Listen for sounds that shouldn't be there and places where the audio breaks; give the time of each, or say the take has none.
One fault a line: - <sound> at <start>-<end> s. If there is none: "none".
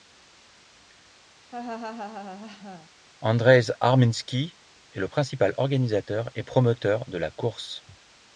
- laugh at 1.5-2.9 s